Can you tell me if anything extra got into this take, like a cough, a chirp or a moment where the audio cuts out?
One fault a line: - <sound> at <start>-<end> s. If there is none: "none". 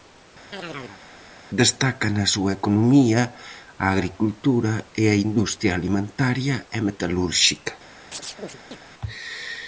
- chirp at 0.5-1.0 s
- chirp at 8.1-8.8 s